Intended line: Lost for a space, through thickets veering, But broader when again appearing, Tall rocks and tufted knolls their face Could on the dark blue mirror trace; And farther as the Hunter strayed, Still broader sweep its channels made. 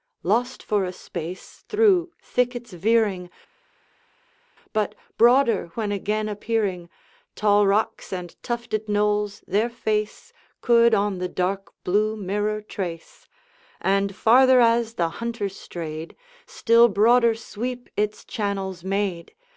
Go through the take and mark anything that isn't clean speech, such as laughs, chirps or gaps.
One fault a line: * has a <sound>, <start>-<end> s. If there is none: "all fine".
all fine